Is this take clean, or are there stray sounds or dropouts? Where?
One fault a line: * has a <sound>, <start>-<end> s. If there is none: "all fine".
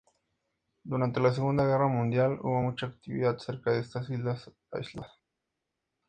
all fine